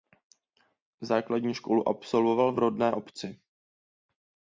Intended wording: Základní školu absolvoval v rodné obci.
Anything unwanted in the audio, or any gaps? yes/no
no